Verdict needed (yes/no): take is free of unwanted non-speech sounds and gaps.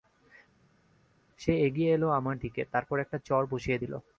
yes